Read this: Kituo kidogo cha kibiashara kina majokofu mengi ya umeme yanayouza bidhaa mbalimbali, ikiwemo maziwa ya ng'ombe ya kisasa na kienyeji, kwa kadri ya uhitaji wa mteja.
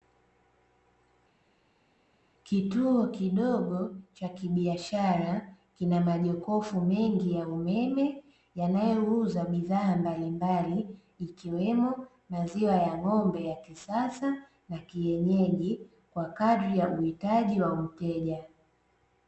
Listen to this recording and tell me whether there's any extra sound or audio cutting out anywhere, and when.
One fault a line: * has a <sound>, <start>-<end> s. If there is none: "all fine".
all fine